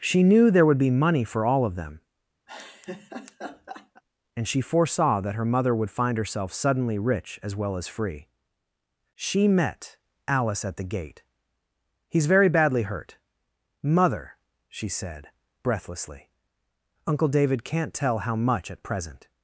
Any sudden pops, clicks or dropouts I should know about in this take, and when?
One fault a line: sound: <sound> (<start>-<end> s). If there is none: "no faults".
sound: laugh (2.5-4.0 s)